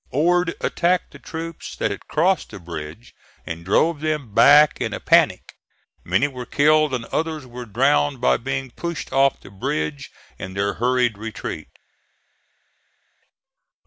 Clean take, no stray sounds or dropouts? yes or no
yes